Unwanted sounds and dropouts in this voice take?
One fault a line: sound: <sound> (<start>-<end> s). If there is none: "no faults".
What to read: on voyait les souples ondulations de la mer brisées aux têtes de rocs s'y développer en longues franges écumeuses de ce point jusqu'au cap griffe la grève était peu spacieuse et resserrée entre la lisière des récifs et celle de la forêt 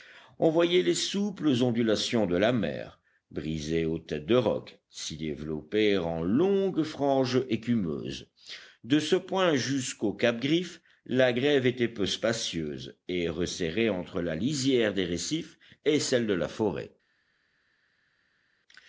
no faults